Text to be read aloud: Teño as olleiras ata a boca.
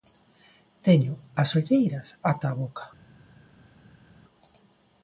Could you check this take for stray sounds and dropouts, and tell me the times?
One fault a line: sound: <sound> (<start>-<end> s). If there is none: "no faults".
no faults